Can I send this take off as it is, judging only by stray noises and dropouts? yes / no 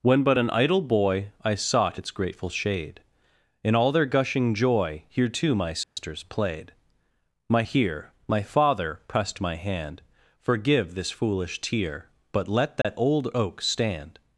no